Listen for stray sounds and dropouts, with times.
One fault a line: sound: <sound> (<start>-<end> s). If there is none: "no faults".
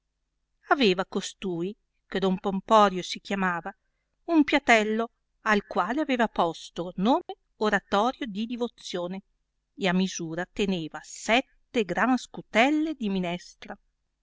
sound: dropout (7.2-7.3 s)